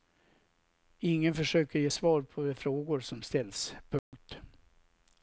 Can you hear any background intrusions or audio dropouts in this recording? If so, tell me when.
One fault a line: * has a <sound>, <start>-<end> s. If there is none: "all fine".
* has a dropout, 4.0-4.1 s